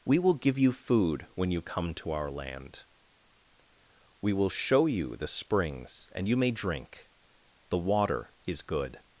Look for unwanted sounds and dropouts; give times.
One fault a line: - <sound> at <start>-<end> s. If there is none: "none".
none